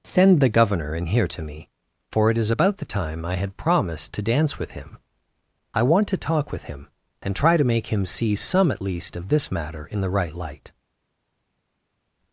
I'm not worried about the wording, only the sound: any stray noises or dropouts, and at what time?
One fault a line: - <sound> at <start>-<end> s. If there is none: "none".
none